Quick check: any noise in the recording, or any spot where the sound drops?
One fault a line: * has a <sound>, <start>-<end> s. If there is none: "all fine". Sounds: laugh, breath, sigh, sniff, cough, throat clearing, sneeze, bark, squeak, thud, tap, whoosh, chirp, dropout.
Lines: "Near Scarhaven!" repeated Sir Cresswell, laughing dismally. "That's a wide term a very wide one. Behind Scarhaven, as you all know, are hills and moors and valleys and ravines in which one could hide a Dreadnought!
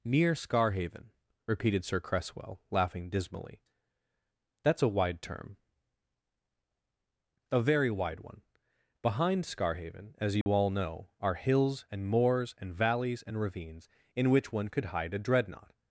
* has a dropout, 10.4-10.5 s